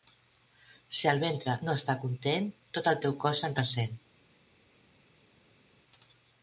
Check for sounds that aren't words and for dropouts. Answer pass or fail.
pass